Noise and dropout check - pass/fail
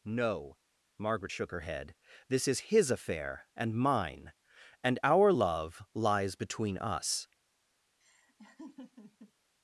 fail